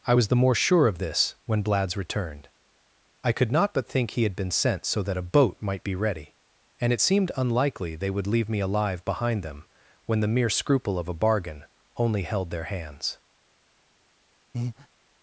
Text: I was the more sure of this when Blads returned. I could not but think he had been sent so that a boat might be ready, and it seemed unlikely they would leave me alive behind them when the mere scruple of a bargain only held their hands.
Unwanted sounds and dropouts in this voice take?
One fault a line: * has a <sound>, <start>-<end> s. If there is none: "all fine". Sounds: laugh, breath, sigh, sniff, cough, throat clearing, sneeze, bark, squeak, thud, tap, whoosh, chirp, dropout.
* has a breath, 14.5-14.9 s